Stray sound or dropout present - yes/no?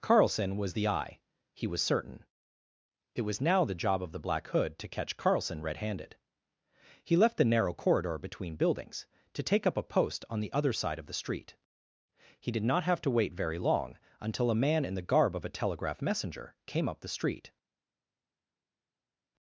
no